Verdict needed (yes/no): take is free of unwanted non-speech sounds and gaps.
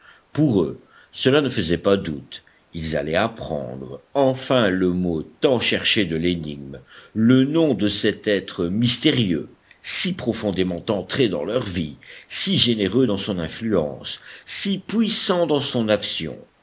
yes